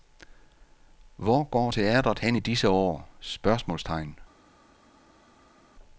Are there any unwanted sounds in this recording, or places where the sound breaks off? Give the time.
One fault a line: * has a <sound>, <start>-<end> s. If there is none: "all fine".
all fine